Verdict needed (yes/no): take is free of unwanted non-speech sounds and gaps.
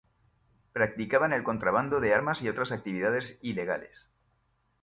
yes